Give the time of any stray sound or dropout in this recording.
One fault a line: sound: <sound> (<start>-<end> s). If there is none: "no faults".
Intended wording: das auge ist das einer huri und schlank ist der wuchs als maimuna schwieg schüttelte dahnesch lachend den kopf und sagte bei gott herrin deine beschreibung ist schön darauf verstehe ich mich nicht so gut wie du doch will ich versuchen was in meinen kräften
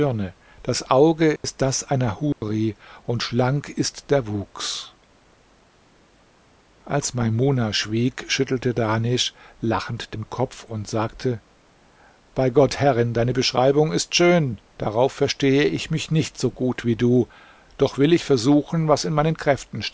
sound: dropout (1.4-1.4 s)
sound: dropout (2.3-2.4 s)